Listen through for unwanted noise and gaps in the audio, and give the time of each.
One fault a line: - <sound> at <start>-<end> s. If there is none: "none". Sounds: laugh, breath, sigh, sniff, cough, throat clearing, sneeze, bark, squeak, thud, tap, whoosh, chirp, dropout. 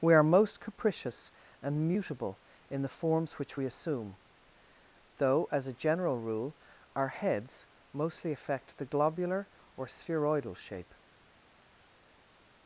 none